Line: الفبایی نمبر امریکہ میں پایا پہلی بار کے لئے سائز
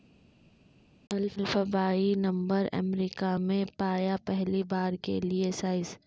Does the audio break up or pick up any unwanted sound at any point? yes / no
no